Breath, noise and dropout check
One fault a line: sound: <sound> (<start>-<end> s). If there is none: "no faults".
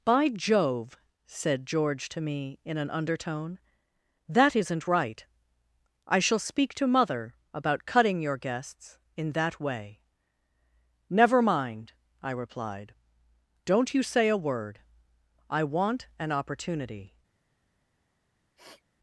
sound: sniff (18.6-18.8 s)